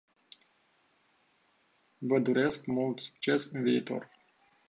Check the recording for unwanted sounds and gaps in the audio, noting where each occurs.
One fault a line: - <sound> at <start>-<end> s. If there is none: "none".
none